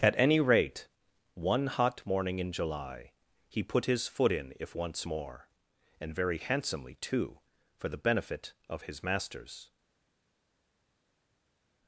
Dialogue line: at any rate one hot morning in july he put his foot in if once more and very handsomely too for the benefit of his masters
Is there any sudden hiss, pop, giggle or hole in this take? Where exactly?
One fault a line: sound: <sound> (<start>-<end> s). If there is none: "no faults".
no faults